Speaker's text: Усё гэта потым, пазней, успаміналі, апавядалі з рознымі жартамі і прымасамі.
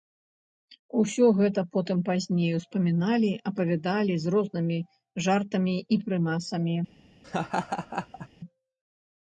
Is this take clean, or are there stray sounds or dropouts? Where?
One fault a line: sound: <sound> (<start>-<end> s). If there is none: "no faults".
sound: laugh (7.2-8.3 s)